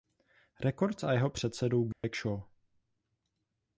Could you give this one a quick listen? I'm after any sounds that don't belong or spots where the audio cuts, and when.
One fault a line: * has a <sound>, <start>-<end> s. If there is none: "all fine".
* has a dropout, 1.9-2.0 s